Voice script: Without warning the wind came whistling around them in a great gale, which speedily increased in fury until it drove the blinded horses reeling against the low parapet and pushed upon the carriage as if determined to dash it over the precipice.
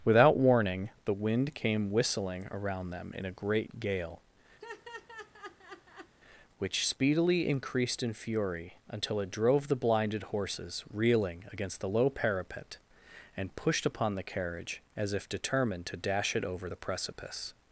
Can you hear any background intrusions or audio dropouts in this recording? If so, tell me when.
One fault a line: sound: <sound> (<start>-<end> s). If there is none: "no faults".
sound: laugh (4.6-6.1 s)